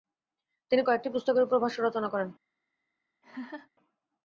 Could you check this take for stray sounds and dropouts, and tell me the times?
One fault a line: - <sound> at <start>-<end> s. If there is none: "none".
- laugh at 3.2-3.7 s